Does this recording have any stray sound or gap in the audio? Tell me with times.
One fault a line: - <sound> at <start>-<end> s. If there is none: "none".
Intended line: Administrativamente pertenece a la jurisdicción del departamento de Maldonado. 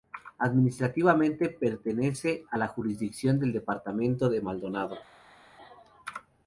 none